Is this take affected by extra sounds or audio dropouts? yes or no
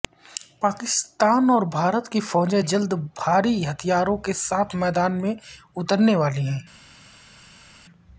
no